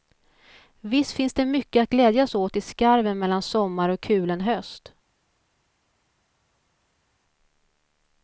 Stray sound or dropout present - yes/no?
no